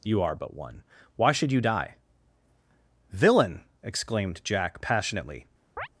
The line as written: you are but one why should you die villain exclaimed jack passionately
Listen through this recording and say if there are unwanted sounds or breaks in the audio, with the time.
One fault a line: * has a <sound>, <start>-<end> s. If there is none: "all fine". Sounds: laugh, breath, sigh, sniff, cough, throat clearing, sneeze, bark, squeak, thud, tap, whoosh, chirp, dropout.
* has a chirp, 5.8-5.9 s